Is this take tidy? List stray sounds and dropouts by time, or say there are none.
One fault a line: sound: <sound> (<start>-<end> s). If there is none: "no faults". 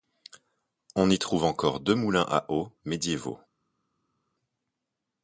no faults